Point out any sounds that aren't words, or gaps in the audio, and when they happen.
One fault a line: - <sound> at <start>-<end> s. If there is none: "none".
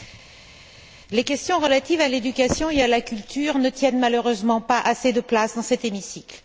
none